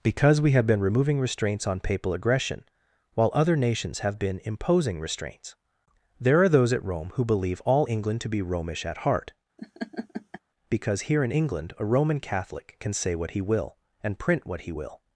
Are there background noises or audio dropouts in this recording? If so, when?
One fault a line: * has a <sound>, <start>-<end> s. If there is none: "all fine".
* has a laugh, 9.6-10.4 s